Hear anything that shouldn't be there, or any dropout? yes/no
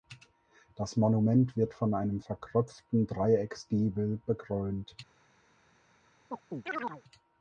yes